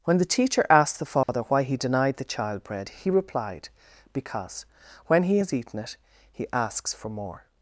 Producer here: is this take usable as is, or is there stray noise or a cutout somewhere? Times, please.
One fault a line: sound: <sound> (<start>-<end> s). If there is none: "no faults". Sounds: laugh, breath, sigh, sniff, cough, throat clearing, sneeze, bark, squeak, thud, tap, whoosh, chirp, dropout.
sound: dropout (1.2-1.3 s)